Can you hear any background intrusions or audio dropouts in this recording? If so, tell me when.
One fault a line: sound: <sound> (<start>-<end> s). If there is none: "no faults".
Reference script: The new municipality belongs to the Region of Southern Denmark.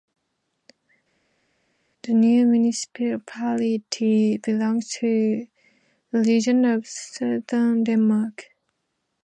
no faults